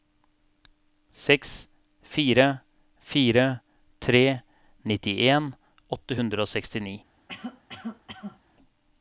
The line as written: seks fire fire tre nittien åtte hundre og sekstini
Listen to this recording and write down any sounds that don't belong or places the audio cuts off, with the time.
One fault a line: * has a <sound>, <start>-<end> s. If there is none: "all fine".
* has a cough, 7.3-8.4 s